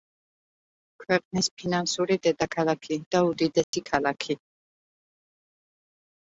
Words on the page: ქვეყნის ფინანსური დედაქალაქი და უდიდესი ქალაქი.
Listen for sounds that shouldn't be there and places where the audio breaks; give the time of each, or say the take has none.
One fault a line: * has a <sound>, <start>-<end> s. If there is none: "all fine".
* has a dropout, 3.6-3.7 s